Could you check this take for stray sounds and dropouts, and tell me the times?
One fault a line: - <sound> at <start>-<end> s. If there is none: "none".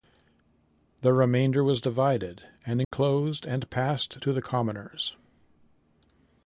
- dropout at 2.8-2.9 s